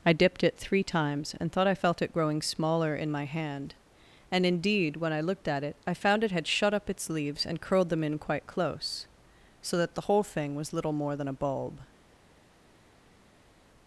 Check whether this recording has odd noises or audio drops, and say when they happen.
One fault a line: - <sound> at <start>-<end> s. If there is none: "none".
none